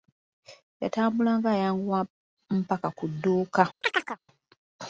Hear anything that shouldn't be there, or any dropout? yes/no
yes